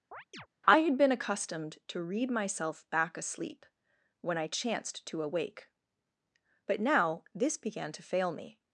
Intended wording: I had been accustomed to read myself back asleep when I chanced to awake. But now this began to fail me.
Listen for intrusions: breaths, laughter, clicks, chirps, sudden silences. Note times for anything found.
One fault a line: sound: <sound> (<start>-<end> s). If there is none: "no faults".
sound: chirp (0.1-0.5 s)